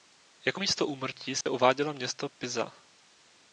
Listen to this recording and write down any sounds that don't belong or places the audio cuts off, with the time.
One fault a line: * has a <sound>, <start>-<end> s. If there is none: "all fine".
* has a dropout, 1.4-1.5 s